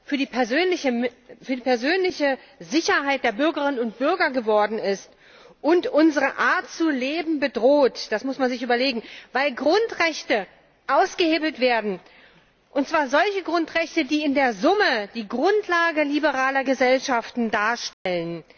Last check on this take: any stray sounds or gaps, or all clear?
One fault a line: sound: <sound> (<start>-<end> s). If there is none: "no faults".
sound: dropout (17.9-18.1 s)